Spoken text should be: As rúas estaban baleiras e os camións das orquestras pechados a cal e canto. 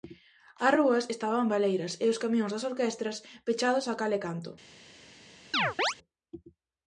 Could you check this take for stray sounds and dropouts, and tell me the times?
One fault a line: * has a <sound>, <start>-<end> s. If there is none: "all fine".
* has a chirp, 5.5-5.9 s